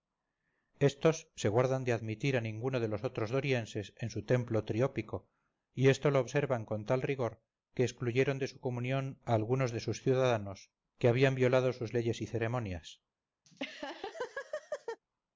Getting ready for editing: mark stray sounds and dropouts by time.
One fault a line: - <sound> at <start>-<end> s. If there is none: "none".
- laugh at 13.4-15.0 s